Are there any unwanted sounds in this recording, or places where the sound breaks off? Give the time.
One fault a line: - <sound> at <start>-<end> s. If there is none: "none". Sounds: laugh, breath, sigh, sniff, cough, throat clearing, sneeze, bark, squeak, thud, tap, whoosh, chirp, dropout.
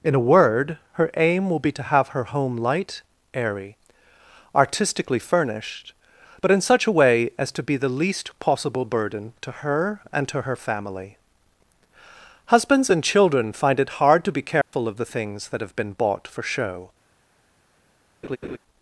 - dropout at 14.6-14.7 s
- laugh at 18.2-18.6 s